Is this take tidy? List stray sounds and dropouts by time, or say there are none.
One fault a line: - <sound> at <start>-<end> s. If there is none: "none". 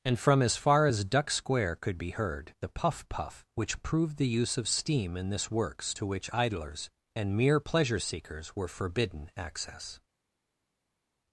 none